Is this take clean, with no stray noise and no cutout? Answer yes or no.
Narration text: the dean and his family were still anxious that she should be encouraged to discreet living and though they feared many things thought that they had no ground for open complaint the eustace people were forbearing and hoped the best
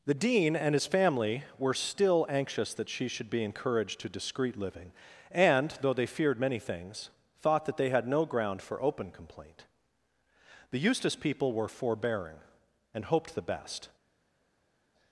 yes